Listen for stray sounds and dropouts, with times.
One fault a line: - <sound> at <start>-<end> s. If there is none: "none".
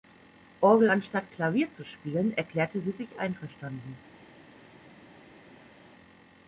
none